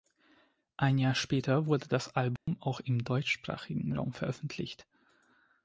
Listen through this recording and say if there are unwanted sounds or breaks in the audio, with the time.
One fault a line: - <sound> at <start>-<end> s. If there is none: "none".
- dropout at 2.4-2.5 s